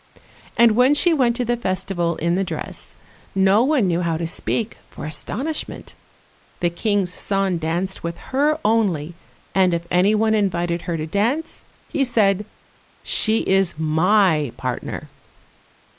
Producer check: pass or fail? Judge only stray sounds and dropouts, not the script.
pass